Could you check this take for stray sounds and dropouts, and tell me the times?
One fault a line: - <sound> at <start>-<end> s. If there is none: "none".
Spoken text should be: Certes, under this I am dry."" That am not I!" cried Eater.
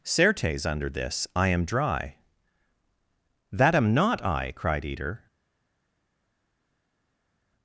none